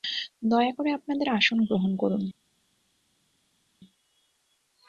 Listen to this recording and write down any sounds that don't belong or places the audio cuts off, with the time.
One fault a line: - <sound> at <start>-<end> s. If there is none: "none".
none